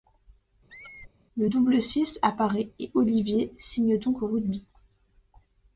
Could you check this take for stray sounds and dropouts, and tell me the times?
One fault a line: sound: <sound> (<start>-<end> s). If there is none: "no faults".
sound: squeak (0.7-1.1 s)